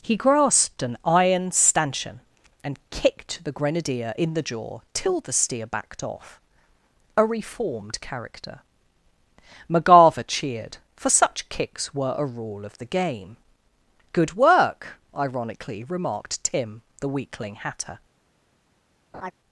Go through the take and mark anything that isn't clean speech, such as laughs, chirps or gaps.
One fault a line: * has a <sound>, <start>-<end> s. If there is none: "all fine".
* has a laugh, 19.1-19.3 s